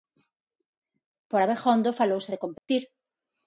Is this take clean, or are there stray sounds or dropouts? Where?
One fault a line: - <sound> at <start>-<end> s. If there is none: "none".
- dropout at 2.6-2.7 s